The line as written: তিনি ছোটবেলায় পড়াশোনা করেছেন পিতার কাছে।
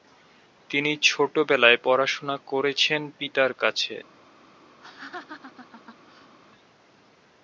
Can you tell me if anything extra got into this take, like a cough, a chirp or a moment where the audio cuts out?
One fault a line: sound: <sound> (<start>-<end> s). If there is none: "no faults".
sound: laugh (4.8-6.4 s)